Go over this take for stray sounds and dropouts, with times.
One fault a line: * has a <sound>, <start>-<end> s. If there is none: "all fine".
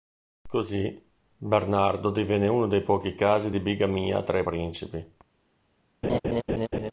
* has a laugh, 6.0-6.9 s